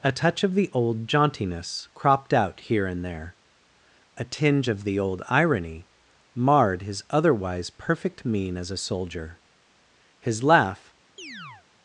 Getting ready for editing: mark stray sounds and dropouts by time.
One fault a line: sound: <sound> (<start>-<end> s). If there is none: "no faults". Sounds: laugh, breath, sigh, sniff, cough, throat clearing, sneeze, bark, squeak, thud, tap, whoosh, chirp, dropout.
sound: chirp (11.2-11.7 s)